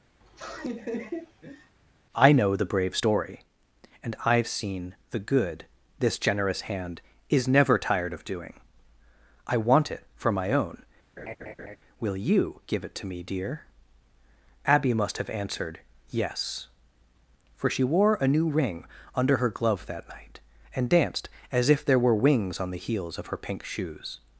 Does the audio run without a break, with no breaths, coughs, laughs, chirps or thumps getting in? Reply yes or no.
no